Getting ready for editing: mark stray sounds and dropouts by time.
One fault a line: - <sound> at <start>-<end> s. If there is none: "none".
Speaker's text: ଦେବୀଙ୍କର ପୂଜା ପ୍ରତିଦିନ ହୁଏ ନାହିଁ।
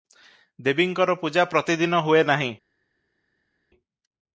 none